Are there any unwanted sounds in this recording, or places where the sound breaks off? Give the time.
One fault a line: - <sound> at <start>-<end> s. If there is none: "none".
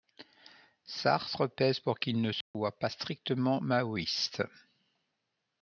- dropout at 2.4-2.5 s